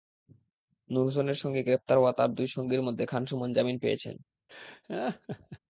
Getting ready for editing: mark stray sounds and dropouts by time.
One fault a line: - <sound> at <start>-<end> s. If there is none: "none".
- laugh at 4.5-5.6 s